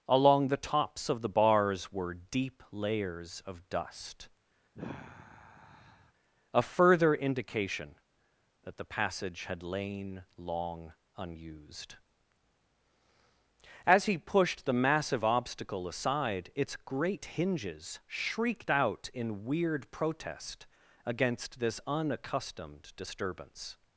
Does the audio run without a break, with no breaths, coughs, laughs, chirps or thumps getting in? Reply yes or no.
no